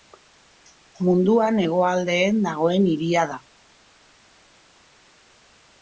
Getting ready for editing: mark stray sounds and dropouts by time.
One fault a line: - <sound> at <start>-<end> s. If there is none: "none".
none